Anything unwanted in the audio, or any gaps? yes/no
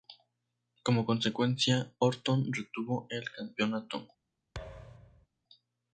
yes